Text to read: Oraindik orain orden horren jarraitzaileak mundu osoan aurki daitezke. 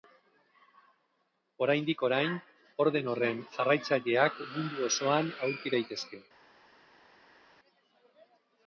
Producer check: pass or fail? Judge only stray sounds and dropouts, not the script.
pass